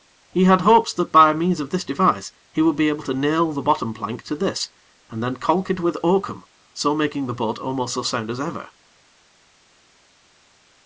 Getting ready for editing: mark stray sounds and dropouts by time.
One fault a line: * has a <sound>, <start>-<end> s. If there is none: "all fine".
all fine